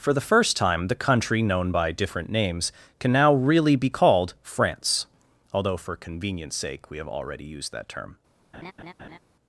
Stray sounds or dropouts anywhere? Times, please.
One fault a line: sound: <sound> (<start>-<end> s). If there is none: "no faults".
sound: laugh (8.5-9.2 s)